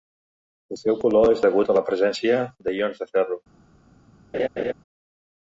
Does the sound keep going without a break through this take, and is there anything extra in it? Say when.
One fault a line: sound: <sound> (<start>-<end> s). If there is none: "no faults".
sound: laugh (4.3-4.7 s)